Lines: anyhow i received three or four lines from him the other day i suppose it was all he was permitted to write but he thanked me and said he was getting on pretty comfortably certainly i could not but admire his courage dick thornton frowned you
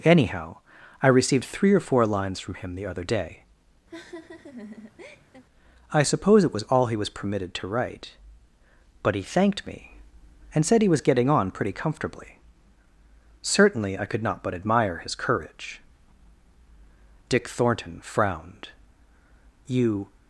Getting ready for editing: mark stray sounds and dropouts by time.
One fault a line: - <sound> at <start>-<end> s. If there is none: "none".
- laugh at 3.9-5.4 s